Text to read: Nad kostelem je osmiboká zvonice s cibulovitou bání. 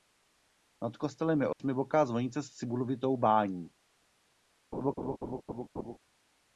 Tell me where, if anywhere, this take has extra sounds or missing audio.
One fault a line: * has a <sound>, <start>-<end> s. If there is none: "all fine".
* has a dropout, 1.5-1.6 s
* has a laugh, 4.7-6.0 s